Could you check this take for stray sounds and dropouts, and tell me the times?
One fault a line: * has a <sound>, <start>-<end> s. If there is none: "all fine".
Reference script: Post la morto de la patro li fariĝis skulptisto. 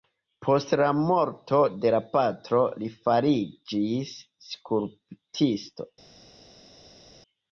all fine